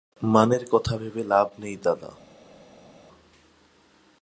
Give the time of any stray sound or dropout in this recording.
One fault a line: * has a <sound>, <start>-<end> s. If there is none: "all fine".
all fine